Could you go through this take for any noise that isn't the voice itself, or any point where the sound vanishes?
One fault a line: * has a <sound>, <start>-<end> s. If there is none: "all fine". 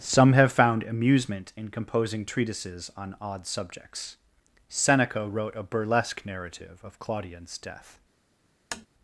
* has a tap, 8.7-8.9 s